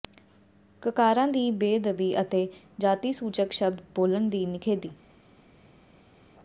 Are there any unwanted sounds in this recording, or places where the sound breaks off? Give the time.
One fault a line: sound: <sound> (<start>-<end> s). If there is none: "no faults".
no faults